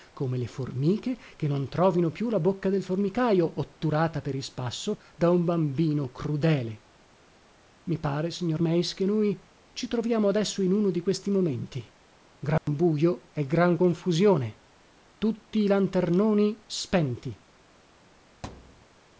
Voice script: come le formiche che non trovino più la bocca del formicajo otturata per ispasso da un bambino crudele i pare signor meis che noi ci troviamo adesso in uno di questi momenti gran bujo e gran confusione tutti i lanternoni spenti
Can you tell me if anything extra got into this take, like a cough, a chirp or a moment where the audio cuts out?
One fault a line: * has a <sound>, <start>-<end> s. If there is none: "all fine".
* has a dropout, 12.6-12.7 s
* has a thud, 18.4-18.9 s